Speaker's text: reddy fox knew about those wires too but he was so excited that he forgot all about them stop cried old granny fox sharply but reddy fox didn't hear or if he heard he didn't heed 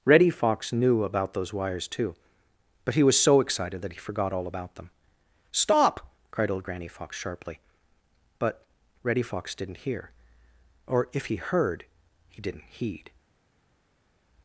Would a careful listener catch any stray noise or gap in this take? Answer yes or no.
no